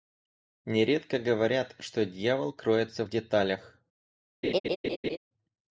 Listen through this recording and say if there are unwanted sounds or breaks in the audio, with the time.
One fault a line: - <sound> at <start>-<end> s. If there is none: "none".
- laugh at 4.4-5.2 s